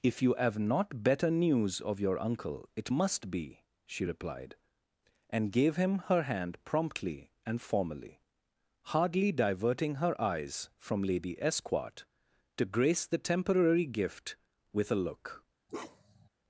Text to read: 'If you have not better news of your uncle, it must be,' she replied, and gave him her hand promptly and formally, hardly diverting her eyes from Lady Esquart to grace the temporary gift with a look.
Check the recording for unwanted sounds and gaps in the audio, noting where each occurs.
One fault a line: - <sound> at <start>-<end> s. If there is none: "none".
- bark at 15.7-16.3 s